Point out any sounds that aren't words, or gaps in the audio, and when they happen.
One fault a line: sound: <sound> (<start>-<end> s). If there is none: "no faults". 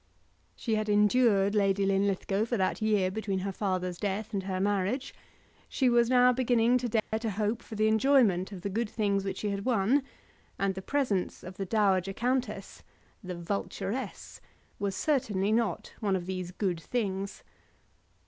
sound: dropout (7.0-7.1 s)